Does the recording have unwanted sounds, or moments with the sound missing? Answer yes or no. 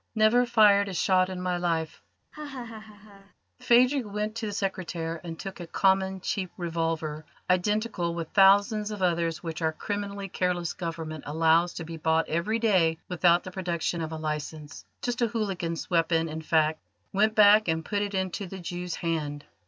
yes